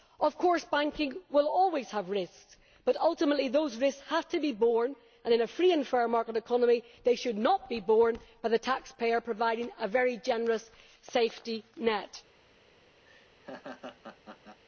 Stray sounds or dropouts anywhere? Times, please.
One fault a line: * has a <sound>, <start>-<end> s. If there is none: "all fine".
* has a laugh, 13.1-14.6 s